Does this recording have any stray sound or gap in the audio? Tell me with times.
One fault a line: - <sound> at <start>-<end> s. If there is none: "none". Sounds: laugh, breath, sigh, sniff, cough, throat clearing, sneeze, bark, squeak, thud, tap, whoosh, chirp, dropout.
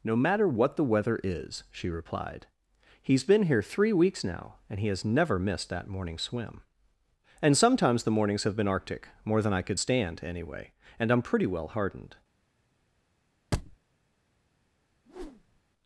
- thud at 13.5-13.8 s
- whoosh at 15.1-15.6 s